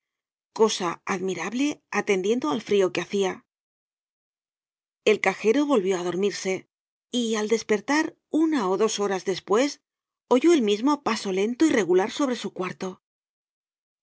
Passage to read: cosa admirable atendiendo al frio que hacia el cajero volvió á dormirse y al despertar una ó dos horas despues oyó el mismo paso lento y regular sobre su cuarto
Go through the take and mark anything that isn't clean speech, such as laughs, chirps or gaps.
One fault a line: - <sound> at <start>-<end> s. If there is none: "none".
none